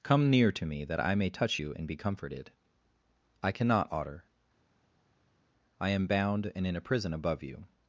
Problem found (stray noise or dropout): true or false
false